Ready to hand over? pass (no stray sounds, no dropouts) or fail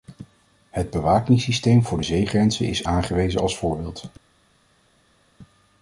pass